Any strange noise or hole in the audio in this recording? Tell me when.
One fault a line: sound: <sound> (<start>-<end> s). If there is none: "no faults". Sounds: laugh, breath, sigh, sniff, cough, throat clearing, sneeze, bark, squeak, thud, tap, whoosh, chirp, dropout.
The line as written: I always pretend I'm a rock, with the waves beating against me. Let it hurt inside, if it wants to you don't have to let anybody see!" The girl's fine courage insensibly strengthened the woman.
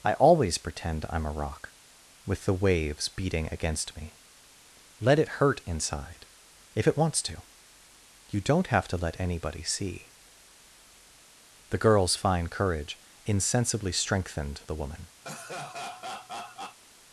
sound: laugh (15.2-16.8 s)